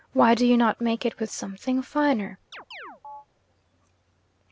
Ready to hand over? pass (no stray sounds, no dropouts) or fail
fail